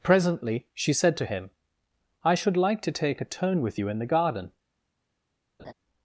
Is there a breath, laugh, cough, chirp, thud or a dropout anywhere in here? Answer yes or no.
yes